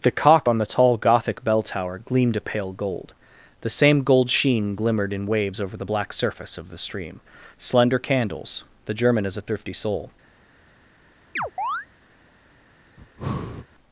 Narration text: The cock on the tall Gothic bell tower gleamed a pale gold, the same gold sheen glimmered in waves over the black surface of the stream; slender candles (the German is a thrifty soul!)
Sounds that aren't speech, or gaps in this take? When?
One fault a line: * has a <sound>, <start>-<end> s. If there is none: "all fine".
* has a chirp, 11.4-11.9 s
* has a breath, 13.0-13.7 s